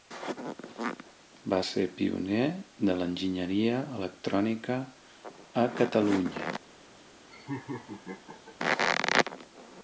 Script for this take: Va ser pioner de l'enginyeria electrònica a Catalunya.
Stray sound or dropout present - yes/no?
yes